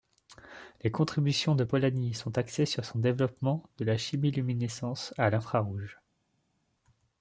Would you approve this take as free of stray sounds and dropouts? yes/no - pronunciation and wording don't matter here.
yes